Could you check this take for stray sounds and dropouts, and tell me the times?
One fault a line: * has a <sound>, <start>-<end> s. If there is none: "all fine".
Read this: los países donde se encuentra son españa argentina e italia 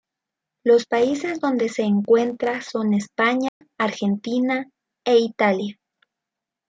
* has a dropout, 3.5-3.6 s